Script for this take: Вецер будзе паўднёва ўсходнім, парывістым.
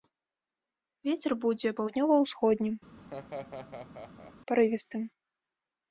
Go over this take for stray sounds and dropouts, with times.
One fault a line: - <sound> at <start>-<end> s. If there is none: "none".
- laugh at 3.0-4.3 s